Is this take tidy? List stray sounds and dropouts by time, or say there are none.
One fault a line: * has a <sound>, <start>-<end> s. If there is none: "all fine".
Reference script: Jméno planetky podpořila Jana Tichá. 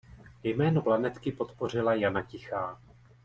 all fine